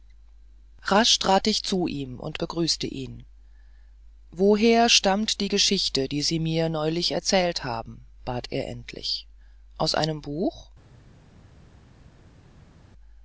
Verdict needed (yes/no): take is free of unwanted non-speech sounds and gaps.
yes